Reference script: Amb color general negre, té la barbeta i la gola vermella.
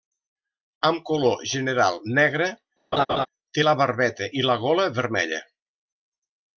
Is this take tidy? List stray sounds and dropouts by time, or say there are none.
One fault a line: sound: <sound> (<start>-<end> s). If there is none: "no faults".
sound: laugh (2.9-3.3 s)